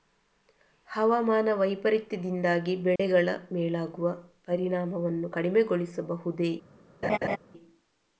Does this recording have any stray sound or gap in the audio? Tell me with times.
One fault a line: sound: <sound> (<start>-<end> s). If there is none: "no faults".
sound: dropout (3.0-3.0 s)
sound: laugh (7.0-7.4 s)